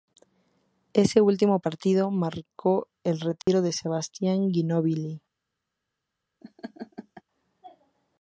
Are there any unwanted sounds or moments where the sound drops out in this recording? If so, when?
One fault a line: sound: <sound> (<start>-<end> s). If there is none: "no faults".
sound: dropout (3.4-3.5 s)
sound: laugh (6.4-7.2 s)